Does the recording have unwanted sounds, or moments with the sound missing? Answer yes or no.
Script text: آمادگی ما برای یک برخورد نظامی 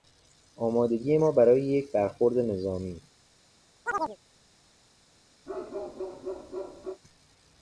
yes